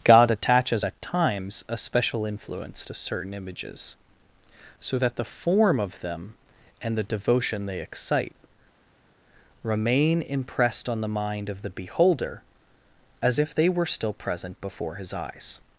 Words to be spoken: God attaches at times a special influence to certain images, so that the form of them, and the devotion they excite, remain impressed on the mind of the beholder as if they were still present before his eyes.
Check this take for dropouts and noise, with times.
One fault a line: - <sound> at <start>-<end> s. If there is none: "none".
none